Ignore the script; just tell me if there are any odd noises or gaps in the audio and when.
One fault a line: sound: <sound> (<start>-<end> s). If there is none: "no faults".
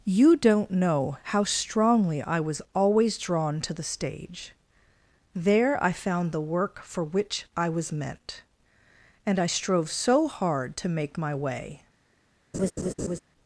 sound: laugh (12.5-13.2 s)